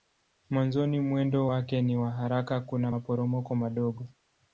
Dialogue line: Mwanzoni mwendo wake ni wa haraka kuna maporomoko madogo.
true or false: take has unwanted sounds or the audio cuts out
false